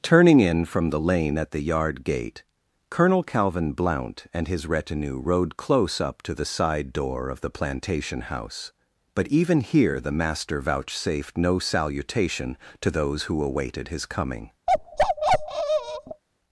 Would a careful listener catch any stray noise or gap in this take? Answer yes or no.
yes